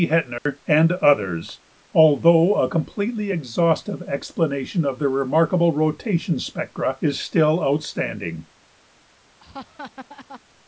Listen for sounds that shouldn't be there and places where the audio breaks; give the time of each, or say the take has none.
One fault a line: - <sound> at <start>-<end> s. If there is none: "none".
- dropout at 0.4-0.5 s
- laugh at 9.4-10.4 s